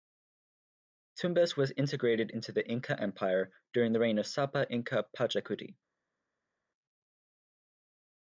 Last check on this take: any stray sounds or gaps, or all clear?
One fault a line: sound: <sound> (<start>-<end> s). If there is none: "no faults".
no faults